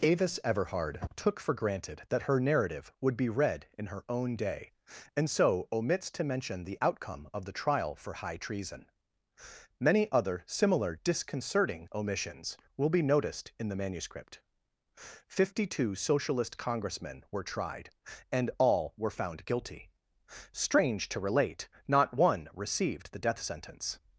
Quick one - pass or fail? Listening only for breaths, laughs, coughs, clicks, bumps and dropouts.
pass